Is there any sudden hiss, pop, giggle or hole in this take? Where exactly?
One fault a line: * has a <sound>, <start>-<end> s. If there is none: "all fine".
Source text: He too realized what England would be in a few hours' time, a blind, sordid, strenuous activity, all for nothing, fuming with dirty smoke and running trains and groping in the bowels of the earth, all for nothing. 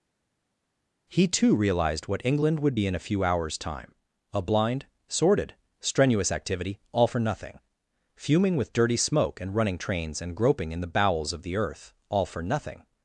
all fine